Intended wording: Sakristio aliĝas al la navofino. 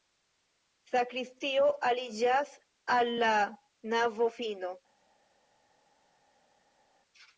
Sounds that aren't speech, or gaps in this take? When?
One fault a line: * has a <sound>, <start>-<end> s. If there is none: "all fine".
all fine